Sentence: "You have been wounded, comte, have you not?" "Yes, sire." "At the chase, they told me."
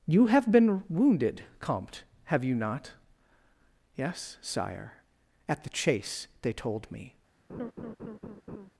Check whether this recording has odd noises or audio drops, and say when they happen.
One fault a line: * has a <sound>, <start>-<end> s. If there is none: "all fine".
* has a laugh, 7.5-8.7 s